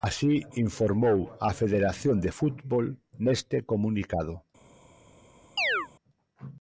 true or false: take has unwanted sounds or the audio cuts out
true